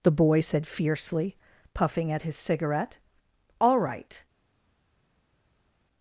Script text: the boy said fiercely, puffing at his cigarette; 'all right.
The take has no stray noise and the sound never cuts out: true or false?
true